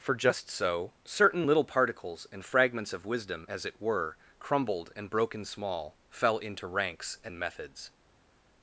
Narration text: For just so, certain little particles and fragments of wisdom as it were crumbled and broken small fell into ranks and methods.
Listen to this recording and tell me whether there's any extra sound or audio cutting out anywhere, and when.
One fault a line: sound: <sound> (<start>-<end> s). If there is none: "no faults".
no faults